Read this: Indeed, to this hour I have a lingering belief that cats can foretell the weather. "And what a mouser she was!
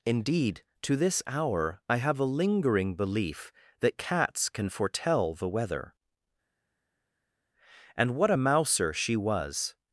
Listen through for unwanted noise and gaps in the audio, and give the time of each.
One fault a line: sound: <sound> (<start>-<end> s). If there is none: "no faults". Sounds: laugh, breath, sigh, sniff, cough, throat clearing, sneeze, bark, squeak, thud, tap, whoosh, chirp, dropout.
no faults